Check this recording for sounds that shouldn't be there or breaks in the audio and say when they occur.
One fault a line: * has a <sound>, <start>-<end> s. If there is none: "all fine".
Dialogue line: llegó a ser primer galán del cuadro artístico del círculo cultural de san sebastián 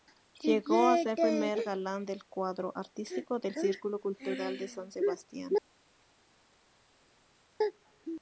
all fine